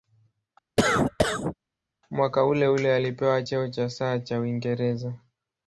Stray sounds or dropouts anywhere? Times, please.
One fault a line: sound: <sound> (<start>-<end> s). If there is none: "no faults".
sound: cough (0.8-1.5 s)